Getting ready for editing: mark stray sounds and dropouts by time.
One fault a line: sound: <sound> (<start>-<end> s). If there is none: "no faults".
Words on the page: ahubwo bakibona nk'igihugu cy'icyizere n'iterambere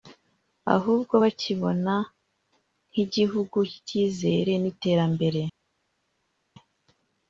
no faults